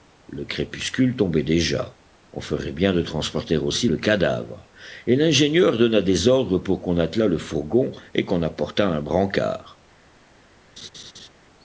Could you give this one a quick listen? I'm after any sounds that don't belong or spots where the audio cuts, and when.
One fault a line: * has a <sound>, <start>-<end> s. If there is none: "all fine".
* has a laugh, 10.8-11.3 s